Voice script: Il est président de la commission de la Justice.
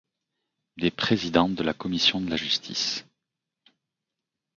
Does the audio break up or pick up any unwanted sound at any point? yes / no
no